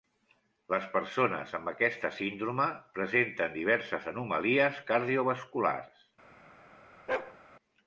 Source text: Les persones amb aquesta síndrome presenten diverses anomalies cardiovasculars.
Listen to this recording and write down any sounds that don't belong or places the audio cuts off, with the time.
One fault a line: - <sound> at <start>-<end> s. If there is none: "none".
- bark at 7.1-7.4 s